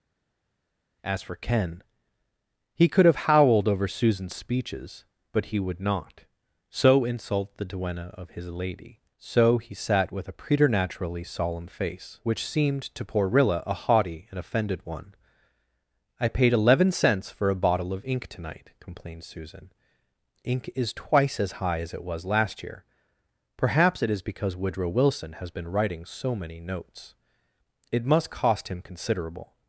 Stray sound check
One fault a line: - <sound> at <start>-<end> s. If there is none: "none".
none